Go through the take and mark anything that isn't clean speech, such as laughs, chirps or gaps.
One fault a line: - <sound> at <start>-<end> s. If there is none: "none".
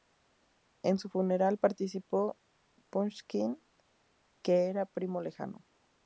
none